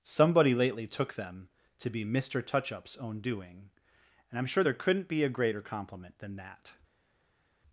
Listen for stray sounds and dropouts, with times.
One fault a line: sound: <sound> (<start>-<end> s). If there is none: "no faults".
no faults